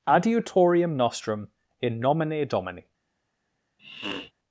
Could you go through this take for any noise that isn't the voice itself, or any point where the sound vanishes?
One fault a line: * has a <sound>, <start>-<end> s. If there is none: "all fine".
* has a sniff, 3.8-4.3 s